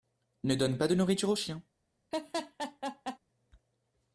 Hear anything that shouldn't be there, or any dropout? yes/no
yes